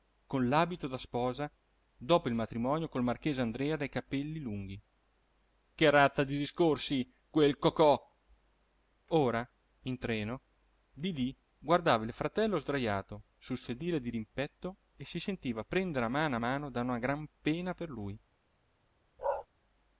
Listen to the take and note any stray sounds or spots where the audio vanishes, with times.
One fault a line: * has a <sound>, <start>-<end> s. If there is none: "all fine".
* has a bark, 19.2-19.5 s